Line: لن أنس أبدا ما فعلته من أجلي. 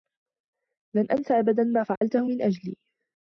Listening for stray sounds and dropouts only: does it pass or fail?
fail